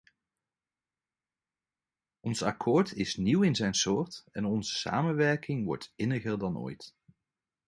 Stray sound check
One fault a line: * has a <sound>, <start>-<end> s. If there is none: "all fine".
all fine